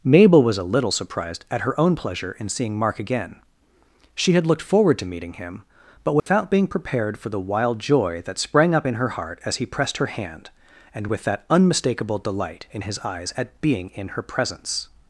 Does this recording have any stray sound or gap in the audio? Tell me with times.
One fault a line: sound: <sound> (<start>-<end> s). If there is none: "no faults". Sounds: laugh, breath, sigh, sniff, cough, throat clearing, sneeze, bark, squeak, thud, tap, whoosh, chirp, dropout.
sound: dropout (6.2-6.3 s)